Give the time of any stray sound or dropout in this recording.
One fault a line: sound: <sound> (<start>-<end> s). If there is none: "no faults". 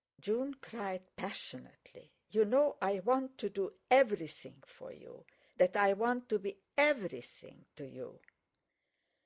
no faults